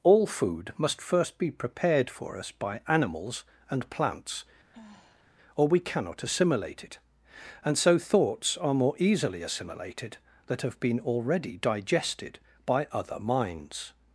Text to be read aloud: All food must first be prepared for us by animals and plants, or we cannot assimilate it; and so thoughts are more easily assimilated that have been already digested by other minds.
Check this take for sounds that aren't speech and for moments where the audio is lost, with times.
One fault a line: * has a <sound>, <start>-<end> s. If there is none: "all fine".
* has a sigh, 4.7-5.3 s